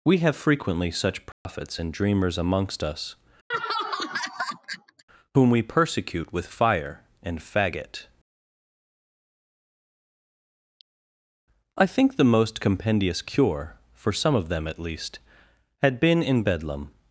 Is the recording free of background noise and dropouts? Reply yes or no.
no